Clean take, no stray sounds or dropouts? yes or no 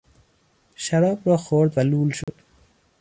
no